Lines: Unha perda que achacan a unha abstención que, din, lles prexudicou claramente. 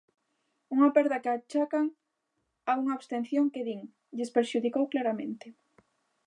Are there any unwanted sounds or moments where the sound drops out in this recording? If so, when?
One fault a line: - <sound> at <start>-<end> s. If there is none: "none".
none